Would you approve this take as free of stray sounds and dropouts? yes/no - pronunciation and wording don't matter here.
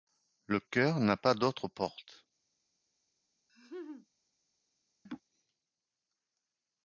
no